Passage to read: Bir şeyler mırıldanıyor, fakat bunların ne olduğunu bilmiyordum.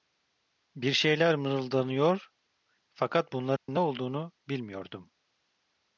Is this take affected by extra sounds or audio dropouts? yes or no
yes